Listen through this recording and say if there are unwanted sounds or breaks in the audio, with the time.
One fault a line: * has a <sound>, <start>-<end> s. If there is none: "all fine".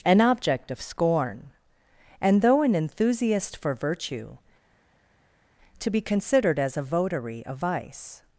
all fine